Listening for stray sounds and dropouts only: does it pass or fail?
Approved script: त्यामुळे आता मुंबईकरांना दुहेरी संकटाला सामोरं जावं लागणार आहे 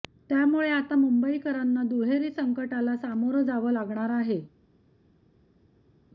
pass